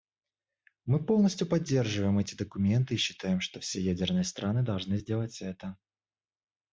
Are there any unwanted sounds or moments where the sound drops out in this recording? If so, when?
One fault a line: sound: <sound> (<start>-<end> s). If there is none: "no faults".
no faults